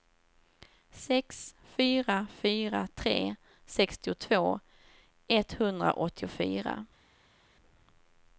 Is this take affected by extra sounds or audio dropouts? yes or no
no